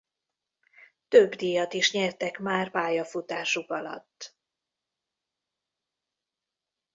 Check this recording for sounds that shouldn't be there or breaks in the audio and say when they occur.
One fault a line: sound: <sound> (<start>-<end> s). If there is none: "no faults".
no faults